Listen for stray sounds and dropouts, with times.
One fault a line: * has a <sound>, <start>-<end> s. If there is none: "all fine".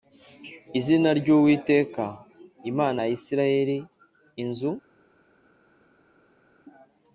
all fine